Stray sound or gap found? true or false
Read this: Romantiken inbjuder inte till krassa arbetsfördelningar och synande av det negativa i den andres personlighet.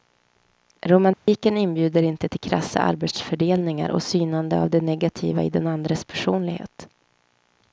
true